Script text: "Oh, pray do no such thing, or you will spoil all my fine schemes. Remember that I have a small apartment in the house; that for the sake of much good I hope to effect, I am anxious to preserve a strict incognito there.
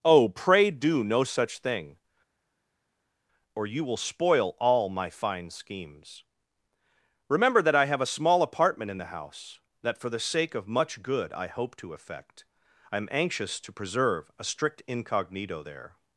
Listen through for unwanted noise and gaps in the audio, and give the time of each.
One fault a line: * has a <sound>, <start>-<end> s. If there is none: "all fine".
all fine